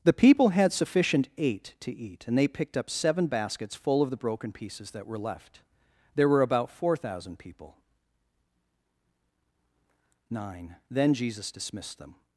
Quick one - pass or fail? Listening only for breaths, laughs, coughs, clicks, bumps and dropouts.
pass